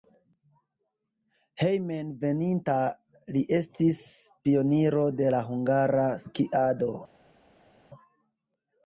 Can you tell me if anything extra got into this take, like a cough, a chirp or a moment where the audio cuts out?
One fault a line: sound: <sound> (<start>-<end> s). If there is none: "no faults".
no faults